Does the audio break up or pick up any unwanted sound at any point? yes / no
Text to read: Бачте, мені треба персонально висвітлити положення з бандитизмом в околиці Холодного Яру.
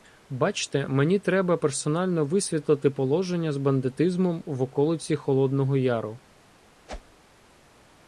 yes